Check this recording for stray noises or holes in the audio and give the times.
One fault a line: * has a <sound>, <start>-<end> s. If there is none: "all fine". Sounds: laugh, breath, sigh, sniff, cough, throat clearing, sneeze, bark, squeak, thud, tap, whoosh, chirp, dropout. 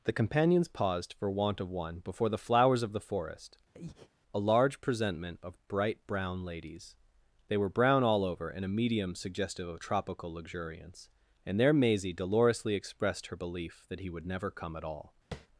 * has a breath, 3.7-4.1 s
* has a tap, 15.3-15.5 s